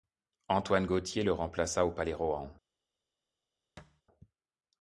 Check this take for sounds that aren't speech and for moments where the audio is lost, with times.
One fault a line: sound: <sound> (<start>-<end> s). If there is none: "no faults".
sound: thud (3.8-4.0 s)